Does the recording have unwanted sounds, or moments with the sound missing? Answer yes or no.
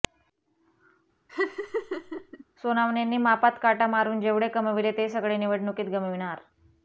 yes